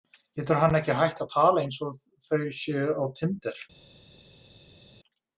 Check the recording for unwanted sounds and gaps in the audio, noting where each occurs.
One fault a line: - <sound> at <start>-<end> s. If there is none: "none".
none